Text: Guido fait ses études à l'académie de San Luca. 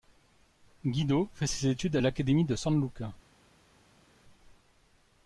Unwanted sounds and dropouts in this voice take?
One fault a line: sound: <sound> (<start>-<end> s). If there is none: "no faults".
no faults